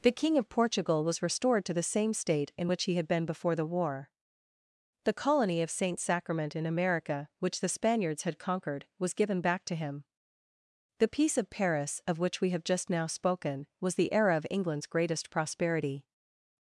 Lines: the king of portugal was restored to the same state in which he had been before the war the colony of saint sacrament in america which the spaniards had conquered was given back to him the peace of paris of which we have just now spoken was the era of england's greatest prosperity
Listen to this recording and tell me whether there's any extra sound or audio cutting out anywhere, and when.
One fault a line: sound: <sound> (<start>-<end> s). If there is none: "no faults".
no faults